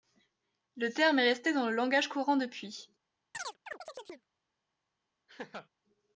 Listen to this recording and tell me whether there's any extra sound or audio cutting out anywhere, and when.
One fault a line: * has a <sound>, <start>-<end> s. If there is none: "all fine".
* has a chirp, 3.3-4.3 s
* has a laugh, 5.3-5.7 s